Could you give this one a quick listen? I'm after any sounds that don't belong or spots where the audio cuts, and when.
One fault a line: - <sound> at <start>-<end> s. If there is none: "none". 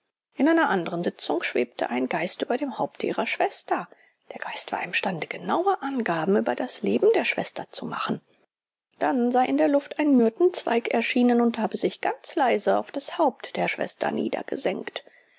none